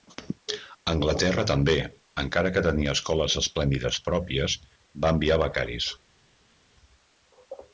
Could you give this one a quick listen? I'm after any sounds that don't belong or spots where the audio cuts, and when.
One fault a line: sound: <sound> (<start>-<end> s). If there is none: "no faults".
no faults